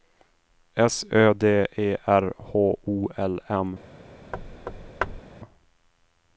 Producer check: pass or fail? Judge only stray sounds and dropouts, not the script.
fail